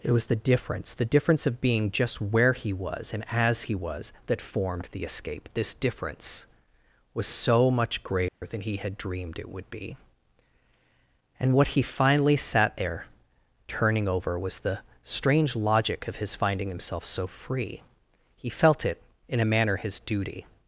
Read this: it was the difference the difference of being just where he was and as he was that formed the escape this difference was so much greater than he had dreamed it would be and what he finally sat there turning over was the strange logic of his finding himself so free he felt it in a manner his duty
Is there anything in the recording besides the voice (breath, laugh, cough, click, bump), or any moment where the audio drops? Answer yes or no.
yes